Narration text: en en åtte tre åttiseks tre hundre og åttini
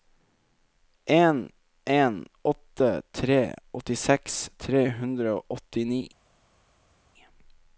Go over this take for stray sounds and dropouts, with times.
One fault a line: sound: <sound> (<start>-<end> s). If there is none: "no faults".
no faults